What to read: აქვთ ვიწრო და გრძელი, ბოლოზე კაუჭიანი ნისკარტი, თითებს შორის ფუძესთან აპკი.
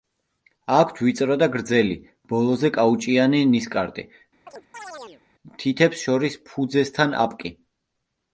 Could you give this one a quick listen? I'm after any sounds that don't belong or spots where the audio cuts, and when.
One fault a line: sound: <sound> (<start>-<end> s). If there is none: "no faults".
sound: chirp (4.5-5.2 s)